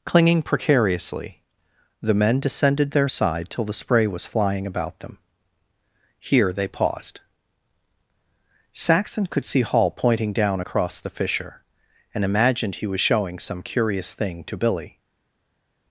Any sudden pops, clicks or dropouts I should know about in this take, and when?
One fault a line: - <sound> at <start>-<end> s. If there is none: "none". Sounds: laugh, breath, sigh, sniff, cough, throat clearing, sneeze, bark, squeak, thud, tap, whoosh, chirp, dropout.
none